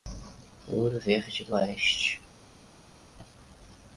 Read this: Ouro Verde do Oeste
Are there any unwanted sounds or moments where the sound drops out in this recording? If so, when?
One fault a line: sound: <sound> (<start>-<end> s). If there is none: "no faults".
no faults